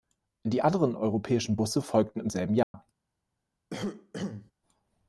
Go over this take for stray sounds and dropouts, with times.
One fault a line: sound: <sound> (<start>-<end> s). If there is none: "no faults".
sound: dropout (2.6-2.7 s)
sound: cough (3.7-4.5 s)